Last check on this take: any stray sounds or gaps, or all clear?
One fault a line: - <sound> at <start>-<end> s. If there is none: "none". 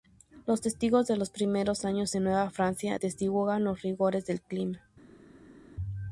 none